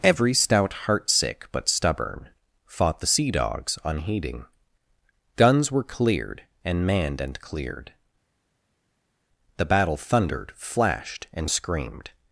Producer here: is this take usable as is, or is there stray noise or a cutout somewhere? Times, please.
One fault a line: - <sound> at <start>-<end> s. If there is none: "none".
none